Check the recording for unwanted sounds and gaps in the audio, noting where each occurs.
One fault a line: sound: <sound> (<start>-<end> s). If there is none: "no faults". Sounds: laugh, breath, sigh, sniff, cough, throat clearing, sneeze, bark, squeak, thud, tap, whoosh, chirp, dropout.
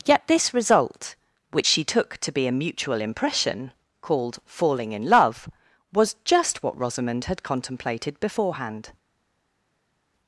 no faults